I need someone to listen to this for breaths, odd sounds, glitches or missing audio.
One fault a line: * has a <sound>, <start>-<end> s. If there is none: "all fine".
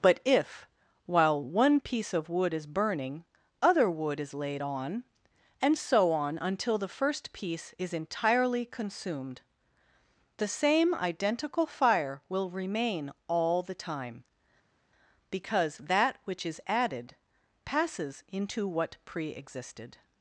all fine